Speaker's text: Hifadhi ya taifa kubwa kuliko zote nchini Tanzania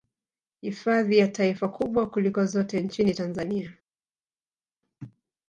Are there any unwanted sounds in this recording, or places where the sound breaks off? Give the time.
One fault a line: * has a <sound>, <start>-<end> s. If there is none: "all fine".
all fine